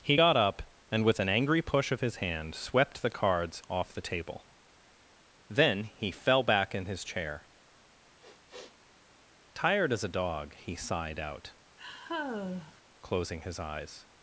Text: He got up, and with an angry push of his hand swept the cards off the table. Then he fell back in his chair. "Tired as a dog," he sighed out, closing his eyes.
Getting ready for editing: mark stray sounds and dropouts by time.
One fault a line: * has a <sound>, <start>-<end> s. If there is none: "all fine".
* has a sniff, 8.2-8.8 s
* has a sigh, 11.8-12.8 s